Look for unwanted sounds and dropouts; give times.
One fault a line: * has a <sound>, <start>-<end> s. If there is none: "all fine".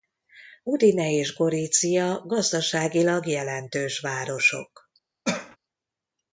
* has a cough, 5.2-5.6 s